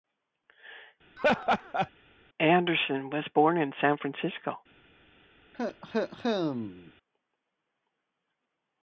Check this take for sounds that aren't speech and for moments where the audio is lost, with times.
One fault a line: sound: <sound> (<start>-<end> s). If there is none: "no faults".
sound: laugh (1.2-1.9 s)
sound: cough (5.5-6.9 s)